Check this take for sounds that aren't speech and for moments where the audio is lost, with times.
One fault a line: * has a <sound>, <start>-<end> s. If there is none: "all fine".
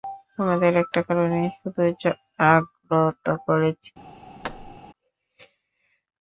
* has a thud, 4.4-4.8 s